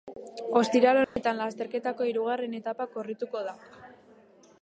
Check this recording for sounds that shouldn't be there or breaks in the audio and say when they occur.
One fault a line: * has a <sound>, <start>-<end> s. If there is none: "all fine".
* has a dropout, 1.0-1.2 s